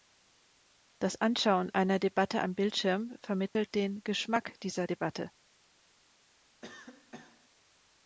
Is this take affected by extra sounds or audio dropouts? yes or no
yes